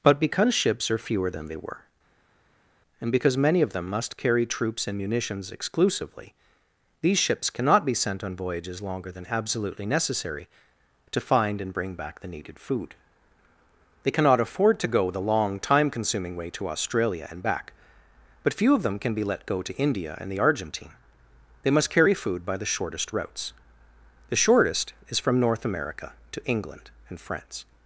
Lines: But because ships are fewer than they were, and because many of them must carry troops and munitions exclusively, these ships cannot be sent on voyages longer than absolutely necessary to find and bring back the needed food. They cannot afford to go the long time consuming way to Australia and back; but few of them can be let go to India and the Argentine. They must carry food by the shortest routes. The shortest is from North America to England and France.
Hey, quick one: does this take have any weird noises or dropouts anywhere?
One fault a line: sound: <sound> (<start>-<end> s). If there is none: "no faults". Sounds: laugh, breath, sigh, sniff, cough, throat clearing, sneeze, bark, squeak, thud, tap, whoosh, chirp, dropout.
no faults